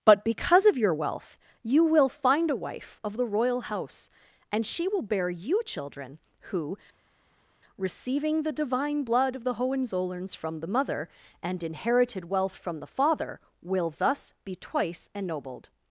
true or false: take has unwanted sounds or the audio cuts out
false